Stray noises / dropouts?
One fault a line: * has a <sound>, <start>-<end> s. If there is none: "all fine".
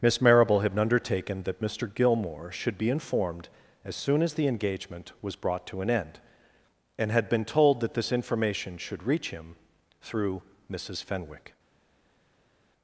all fine